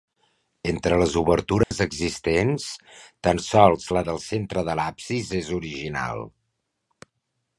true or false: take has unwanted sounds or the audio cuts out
true